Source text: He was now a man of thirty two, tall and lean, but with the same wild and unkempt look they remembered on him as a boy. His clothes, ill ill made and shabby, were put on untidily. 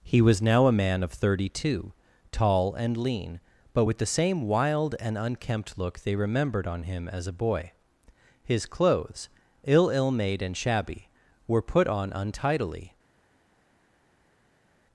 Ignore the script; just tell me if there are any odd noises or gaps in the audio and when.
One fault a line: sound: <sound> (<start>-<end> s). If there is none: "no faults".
no faults